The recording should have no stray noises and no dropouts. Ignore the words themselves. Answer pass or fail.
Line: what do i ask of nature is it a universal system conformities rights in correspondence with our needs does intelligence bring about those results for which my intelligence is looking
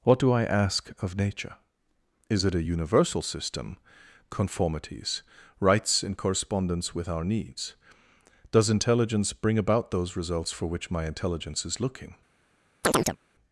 fail